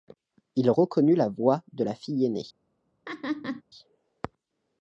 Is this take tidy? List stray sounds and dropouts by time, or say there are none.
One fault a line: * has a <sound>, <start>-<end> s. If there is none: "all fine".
* has a laugh, 3.1-3.6 s